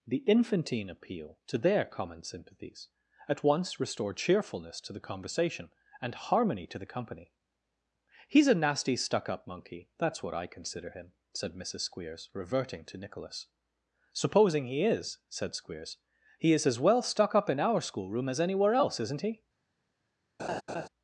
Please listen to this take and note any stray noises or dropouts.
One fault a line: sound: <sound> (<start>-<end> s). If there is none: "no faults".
sound: laugh (20.4-20.9 s)